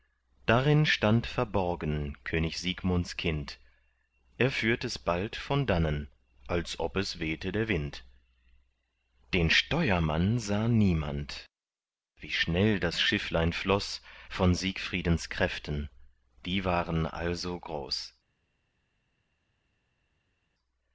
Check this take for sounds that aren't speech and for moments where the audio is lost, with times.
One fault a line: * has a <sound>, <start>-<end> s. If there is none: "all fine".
all fine